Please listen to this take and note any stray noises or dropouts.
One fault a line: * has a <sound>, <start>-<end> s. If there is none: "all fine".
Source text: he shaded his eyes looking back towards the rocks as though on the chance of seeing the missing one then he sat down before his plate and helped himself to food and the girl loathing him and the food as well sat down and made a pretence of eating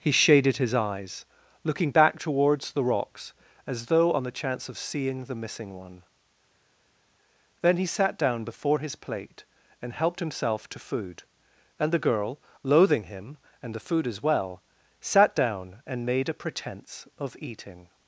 all fine